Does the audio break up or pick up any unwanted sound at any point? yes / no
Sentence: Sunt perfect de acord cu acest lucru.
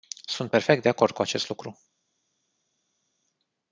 no